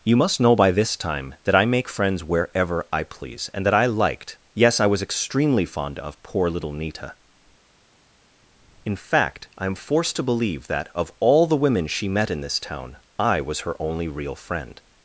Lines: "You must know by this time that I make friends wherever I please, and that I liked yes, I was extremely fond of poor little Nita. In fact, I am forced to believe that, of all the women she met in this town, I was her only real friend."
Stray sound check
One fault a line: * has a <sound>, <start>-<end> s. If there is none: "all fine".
all fine